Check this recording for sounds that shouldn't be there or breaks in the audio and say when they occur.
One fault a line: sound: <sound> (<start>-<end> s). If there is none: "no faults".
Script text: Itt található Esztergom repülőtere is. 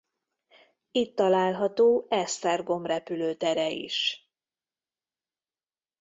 no faults